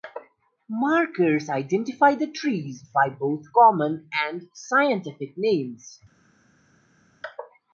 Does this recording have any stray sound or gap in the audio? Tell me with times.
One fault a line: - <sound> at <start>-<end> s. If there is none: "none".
none